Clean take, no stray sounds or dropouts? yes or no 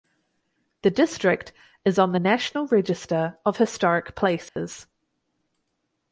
no